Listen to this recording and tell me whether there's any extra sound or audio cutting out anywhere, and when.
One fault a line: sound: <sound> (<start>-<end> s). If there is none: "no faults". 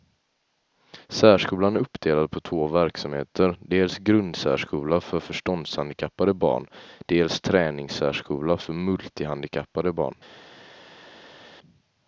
no faults